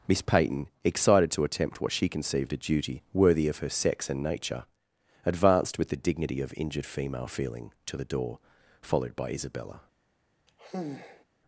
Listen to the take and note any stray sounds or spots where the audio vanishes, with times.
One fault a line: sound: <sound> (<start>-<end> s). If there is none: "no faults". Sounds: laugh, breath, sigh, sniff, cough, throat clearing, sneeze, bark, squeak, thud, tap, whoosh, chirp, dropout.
sound: sigh (10.5-11.2 s)